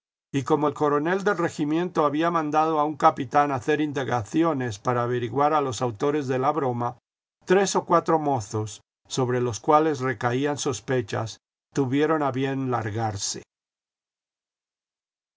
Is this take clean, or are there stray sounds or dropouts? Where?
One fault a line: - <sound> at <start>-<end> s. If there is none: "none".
none